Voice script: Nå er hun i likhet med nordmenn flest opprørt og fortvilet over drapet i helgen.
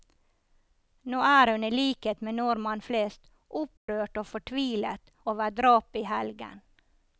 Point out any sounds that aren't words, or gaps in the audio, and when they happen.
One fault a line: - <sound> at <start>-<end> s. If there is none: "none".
- dropout at 3.8-3.9 s